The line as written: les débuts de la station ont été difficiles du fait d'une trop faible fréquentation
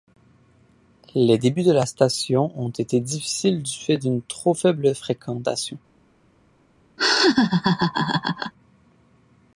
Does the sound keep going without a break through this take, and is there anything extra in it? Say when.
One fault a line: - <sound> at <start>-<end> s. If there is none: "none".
- laugh at 7.0-8.5 s